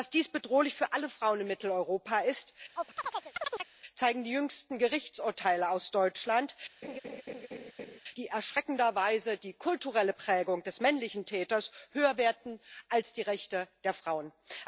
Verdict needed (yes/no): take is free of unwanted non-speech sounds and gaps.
no